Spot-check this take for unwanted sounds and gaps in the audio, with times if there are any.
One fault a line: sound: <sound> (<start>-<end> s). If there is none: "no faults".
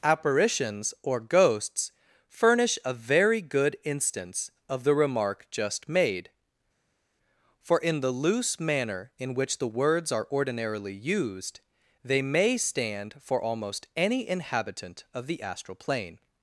no faults